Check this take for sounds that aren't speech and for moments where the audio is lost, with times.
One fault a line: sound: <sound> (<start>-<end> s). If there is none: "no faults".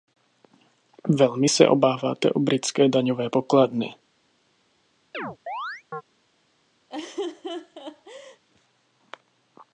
sound: chirp (5.1-6.0 s)
sound: laugh (6.9-8.4 s)